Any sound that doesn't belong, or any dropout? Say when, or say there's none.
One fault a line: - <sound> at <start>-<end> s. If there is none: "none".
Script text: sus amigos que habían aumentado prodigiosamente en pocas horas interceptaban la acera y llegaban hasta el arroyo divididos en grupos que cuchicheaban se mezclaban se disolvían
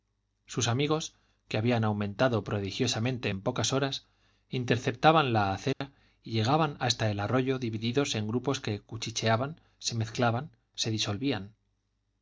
- dropout at 5.7-5.8 s